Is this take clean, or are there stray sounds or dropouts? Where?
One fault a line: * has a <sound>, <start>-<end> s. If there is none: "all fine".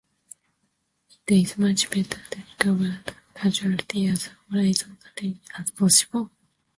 all fine